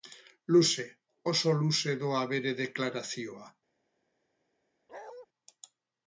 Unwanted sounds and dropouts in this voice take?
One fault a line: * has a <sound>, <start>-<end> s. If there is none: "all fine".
* has a bark, 4.9-5.3 s